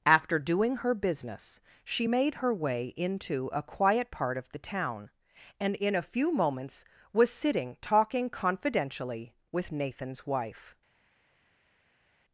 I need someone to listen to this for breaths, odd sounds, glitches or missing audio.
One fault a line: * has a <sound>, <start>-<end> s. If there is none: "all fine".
all fine